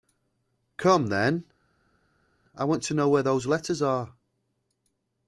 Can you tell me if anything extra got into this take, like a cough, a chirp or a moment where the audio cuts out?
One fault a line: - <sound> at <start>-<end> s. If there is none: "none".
none